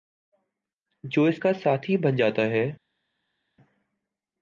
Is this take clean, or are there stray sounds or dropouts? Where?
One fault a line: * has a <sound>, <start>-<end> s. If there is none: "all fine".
all fine